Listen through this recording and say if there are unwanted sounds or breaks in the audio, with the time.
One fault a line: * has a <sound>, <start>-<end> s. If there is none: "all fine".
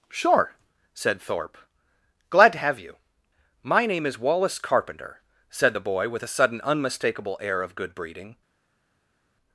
all fine